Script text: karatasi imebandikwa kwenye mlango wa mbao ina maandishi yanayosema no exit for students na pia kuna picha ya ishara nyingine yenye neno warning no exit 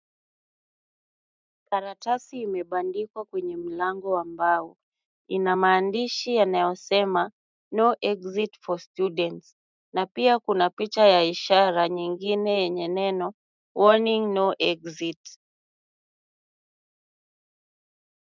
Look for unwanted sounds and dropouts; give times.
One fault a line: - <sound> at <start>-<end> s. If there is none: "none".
none